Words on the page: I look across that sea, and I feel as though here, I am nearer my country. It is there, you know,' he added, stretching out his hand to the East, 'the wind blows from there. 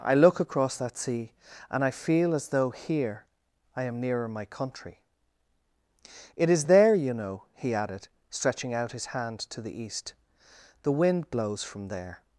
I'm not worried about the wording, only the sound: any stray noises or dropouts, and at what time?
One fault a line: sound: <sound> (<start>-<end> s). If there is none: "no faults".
no faults